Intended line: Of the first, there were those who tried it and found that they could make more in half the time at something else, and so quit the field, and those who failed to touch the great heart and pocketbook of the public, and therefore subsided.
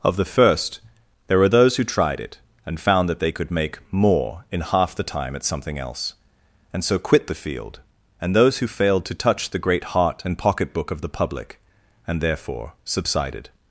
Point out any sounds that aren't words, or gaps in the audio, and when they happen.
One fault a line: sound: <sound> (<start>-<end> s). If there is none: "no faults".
no faults